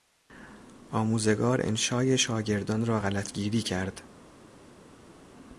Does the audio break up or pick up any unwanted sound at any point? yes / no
no